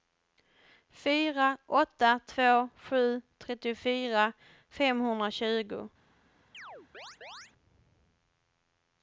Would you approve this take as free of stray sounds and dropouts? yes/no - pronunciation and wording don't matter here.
no